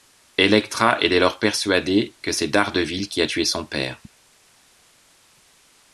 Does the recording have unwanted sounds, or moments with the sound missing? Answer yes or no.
no